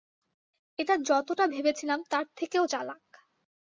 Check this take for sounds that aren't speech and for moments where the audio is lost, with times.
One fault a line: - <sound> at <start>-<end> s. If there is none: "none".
none